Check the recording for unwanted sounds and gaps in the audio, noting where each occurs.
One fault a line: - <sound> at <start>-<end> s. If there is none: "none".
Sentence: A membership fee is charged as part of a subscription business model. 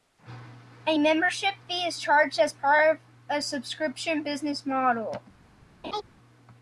- laugh at 5.8-6.0 s